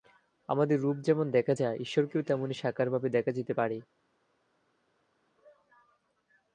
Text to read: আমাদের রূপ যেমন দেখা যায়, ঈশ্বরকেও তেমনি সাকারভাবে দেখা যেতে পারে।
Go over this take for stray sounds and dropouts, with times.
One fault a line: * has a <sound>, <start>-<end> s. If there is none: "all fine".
all fine